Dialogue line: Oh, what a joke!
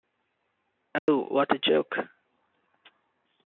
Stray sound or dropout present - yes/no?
yes